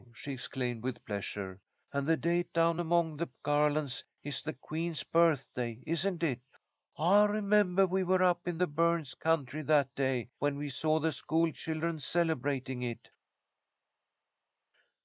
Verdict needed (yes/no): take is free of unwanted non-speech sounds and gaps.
yes